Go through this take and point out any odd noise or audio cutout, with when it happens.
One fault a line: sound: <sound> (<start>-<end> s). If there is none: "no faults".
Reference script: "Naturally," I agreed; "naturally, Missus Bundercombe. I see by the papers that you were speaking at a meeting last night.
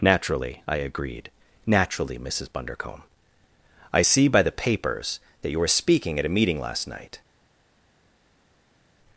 no faults